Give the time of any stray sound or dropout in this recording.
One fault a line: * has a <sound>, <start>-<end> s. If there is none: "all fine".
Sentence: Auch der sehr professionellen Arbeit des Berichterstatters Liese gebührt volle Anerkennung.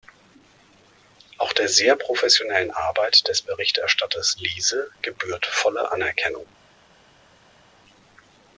all fine